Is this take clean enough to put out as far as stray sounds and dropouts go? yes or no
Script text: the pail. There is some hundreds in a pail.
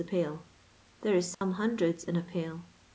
no